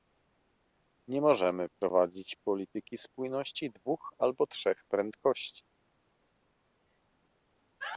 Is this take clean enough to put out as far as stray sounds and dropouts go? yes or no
yes